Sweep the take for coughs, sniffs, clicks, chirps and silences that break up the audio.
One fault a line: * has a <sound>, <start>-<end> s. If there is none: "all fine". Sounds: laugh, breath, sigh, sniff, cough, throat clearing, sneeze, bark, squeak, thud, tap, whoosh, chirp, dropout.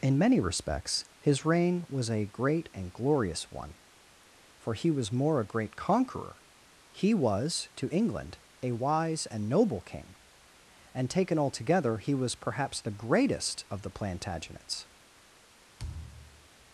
* has a thud, 15.8-16.5 s